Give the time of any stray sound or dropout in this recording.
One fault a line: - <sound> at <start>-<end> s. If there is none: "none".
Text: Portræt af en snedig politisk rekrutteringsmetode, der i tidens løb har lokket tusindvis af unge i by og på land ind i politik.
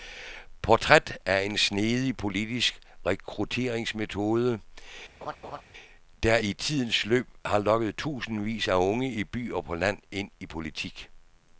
- laugh at 5.2-5.6 s